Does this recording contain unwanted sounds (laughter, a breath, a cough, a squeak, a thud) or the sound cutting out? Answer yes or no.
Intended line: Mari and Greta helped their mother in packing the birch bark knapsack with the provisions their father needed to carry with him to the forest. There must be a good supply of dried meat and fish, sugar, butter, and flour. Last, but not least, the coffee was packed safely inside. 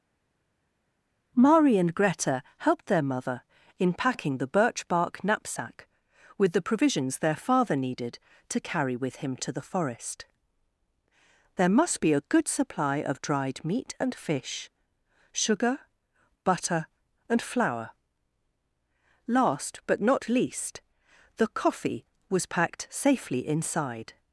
no